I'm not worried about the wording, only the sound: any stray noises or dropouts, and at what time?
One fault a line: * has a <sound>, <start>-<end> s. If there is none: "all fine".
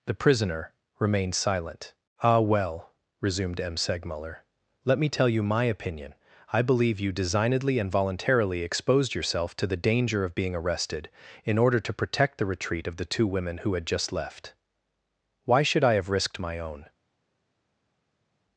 all fine